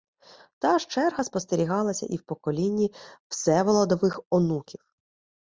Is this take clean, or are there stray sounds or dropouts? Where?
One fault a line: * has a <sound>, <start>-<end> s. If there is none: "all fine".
all fine